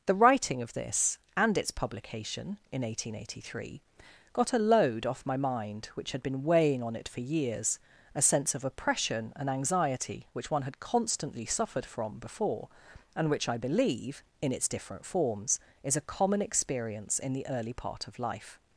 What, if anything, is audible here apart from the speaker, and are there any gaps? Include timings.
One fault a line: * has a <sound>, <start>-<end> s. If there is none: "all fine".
all fine